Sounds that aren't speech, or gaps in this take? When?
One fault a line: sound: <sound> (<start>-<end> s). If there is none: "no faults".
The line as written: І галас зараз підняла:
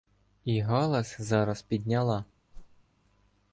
sound: whoosh (2.5-2.8 s)